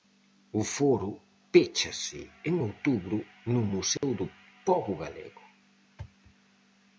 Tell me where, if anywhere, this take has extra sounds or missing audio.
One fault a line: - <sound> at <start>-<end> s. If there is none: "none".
- dropout at 4.0-4.0 s